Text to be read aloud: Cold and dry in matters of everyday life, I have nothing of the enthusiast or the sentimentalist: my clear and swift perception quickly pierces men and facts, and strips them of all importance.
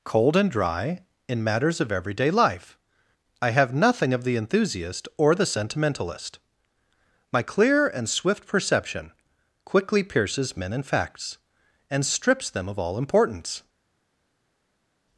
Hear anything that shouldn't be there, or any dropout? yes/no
no